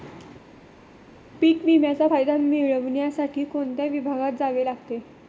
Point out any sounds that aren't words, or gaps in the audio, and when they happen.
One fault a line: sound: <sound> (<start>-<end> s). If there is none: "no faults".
no faults